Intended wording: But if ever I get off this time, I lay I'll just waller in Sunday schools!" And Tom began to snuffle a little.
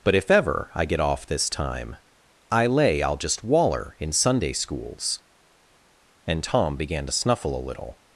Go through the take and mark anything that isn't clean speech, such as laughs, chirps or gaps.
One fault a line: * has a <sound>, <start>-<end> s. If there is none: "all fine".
all fine